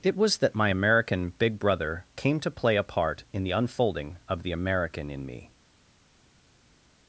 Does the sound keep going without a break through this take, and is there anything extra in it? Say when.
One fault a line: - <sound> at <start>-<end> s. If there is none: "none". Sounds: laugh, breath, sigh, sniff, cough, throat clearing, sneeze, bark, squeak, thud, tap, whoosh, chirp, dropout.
none